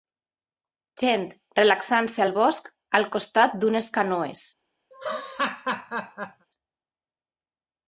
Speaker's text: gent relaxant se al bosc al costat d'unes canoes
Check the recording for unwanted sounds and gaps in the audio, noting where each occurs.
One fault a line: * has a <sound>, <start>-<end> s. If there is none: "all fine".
* has a laugh, 4.9-6.5 s